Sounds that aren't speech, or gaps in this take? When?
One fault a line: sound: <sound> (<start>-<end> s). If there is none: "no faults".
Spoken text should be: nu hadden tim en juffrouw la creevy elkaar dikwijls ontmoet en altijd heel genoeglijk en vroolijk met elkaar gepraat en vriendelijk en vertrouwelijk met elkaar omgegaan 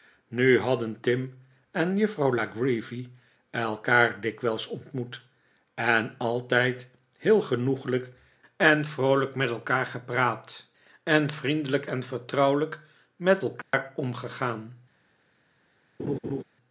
sound: dropout (13.6-13.7 s)
sound: laugh (16.0-16.4 s)